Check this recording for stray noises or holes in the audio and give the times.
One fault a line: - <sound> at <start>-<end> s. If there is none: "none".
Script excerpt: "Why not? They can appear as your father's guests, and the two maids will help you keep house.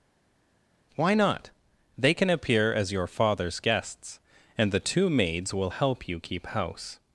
none